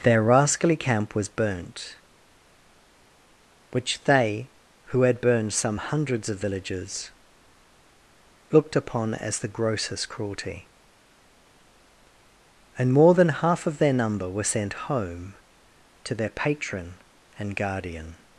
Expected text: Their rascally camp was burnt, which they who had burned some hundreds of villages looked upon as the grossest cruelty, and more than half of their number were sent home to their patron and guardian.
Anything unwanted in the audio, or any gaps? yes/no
no